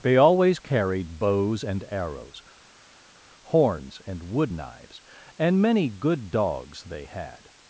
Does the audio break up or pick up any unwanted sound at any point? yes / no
no